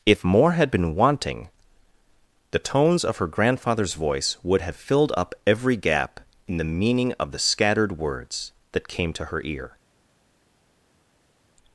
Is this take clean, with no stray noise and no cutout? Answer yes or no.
yes